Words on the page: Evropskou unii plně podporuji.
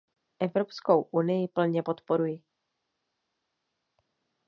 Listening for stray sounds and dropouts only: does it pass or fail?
pass